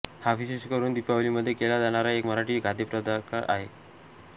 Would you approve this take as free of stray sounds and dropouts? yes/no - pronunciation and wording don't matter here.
yes